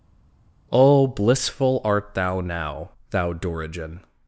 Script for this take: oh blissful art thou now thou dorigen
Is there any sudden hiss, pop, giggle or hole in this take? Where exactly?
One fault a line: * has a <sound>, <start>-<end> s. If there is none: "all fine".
all fine